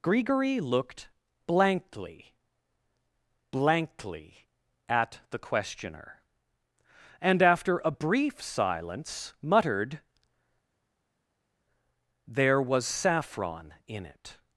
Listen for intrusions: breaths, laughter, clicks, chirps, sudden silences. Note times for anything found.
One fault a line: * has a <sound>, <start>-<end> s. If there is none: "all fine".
all fine